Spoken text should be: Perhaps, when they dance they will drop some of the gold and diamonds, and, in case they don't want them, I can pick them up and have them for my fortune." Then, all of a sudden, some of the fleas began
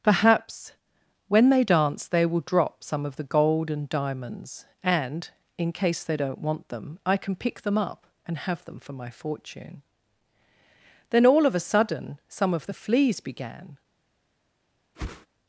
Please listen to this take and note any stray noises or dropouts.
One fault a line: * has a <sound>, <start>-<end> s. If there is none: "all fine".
* has a whoosh, 14.9-15.3 s